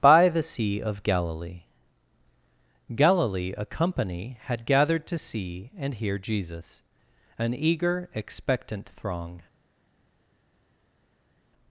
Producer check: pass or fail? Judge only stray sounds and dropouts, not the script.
pass